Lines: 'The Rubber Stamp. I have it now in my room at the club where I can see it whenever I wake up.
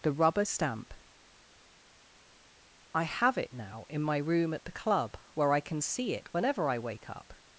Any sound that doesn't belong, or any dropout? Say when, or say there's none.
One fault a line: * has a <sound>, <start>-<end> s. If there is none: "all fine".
all fine